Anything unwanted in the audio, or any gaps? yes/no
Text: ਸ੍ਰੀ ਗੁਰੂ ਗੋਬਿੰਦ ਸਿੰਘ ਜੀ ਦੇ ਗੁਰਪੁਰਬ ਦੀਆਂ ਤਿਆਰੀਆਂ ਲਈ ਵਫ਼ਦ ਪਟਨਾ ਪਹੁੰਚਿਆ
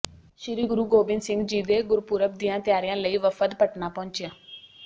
no